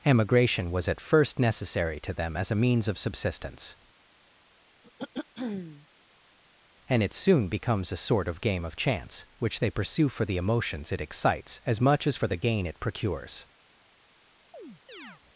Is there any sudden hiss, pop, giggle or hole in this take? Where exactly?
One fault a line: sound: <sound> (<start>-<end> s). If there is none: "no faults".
sound: throat clearing (4.8-5.9 s)
sound: chirp (14.5-15.2 s)